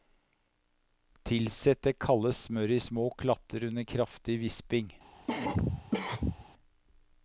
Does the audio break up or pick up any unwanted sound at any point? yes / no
yes